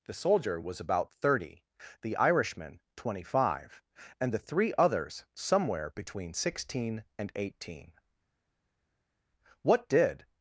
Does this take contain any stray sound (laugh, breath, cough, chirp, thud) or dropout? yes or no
no